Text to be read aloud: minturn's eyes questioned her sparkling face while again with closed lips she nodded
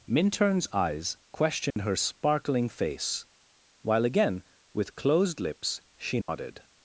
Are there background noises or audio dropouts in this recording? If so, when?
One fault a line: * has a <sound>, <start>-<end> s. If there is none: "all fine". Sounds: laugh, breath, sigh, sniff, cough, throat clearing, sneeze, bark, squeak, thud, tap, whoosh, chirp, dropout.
* has a dropout, 1.7-1.8 s
* has a dropout, 6.2-6.3 s